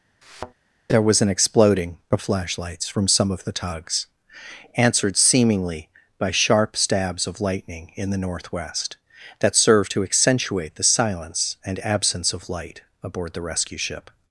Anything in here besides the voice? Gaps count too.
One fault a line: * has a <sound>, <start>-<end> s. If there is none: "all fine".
* has a thud, 0.2-0.5 s